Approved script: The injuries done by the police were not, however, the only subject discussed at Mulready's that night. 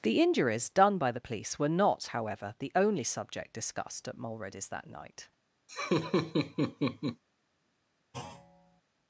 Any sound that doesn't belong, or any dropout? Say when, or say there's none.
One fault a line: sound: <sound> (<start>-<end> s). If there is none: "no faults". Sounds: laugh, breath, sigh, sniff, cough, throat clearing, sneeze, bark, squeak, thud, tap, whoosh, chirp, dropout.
sound: laugh (5.7-7.2 s)
sound: thud (8.1-8.8 s)